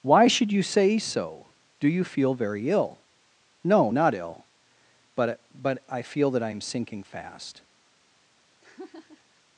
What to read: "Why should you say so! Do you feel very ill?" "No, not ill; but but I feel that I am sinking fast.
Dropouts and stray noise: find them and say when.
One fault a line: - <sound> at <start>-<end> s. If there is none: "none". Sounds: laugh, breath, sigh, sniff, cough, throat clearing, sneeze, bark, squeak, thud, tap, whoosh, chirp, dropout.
- laugh at 8.6-9.4 s